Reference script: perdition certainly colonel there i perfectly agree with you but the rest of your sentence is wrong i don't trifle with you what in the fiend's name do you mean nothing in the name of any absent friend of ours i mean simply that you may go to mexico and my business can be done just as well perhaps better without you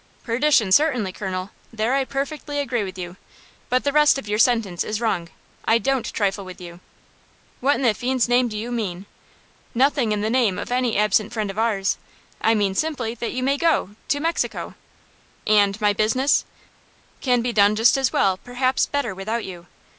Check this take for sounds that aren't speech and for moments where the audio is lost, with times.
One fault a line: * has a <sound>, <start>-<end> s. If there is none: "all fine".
all fine